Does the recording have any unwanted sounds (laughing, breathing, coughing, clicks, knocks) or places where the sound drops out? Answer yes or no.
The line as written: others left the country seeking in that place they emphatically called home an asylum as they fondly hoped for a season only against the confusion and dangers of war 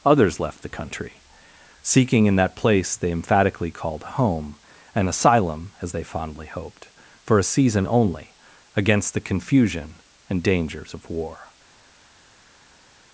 no